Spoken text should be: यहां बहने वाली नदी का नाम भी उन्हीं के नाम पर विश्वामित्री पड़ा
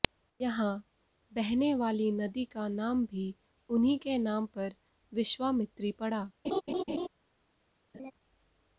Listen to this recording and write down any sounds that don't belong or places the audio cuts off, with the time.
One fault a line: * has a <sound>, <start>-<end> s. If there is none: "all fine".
* has a laugh, 6.4-7.1 s
* has a laugh, 7.9-8.1 s